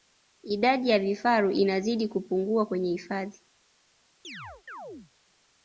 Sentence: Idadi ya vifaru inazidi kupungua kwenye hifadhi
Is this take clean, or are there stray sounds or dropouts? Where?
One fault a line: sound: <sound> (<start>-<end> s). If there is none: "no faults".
sound: chirp (4.2-5.1 s)